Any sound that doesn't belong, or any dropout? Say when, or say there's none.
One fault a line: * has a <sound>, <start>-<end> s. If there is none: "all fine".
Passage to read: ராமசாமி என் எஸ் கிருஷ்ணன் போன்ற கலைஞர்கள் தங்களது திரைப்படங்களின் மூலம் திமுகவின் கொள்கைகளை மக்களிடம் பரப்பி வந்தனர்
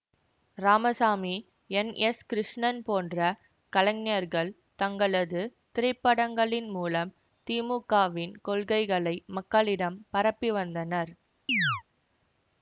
* has a chirp, 11.5-11.8 s